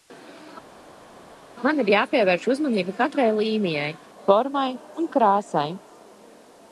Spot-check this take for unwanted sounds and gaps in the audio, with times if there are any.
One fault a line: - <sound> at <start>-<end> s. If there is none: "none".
none